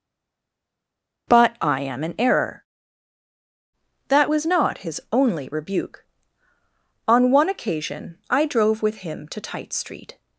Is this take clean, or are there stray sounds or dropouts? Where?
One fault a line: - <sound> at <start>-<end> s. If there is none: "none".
none